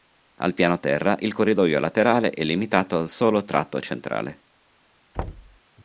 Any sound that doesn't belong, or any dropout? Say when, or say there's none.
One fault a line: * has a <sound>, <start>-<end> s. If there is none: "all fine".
* has a thud, 5.1-5.6 s